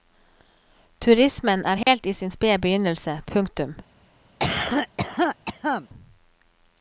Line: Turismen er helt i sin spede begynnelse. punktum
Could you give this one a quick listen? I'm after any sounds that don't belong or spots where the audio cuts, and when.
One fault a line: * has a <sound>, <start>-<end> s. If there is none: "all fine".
* has a dropout, 1.8-1.9 s
* has a cough, 4.4-5.9 s